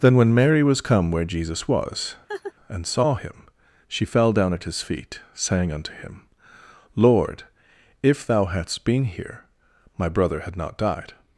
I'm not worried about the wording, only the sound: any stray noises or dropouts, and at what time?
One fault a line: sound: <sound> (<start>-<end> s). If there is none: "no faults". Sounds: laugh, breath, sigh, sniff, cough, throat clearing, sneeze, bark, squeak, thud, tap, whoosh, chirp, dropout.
sound: laugh (2.3-2.5 s)